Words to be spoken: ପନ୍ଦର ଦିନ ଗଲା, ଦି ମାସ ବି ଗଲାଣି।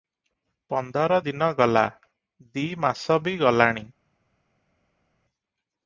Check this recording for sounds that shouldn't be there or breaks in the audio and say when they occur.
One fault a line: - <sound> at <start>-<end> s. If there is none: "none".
none